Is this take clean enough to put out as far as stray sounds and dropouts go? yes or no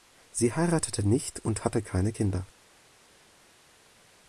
yes